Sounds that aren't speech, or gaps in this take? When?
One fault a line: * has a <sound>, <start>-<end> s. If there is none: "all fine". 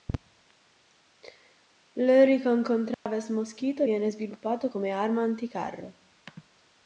* has a dropout, 2.9-3.1 s